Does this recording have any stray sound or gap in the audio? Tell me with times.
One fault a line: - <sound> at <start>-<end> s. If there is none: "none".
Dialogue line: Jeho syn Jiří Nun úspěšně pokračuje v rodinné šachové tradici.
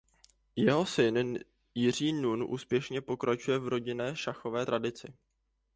none